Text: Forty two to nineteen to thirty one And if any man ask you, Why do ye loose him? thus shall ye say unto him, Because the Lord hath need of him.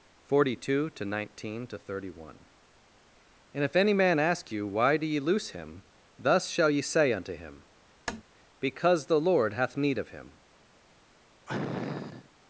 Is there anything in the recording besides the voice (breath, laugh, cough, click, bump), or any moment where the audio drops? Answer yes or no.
yes